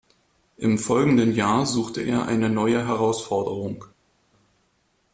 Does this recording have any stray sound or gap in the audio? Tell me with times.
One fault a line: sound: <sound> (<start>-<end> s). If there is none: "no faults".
no faults